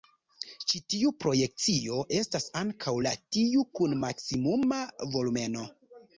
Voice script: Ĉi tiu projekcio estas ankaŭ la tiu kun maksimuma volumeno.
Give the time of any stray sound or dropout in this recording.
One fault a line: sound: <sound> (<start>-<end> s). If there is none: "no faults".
no faults